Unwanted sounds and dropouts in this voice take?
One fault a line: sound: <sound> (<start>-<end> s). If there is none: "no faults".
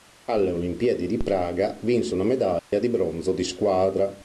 sound: dropout (2.6-2.7 s)